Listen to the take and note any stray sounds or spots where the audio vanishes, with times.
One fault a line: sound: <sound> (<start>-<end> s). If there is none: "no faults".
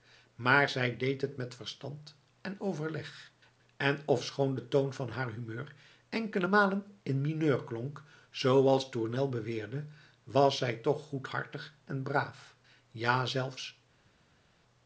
no faults